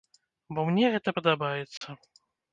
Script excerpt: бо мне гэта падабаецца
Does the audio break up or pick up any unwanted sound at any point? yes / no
yes